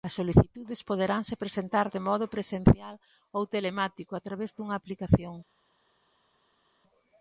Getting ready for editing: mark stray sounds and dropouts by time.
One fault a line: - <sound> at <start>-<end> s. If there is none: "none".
none